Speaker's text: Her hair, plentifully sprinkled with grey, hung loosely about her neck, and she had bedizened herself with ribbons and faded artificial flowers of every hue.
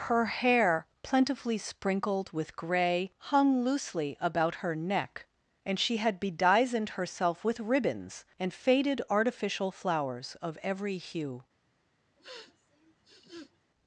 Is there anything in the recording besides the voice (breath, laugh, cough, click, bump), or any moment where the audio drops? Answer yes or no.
yes